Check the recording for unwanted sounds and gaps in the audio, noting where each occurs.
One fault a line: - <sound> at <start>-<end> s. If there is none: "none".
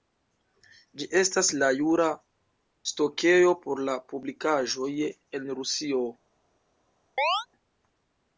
- chirp at 7.2-7.5 s